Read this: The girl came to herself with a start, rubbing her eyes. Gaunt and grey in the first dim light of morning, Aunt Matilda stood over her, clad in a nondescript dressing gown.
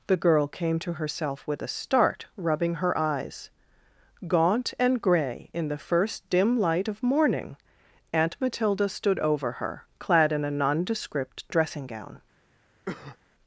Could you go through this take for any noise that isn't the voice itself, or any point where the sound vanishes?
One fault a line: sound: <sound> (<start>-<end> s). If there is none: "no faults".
sound: cough (12.9-13.2 s)